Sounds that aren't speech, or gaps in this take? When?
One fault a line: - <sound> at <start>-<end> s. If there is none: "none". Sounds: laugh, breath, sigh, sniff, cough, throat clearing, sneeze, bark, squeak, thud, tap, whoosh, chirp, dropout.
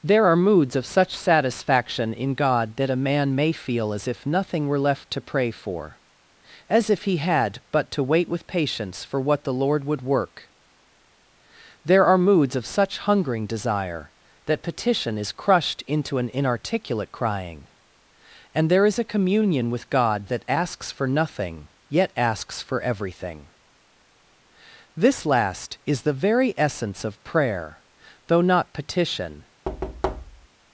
- thud at 29.6-30.5 s